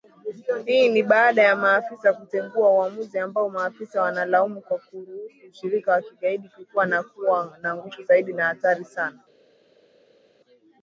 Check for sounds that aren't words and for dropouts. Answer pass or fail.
pass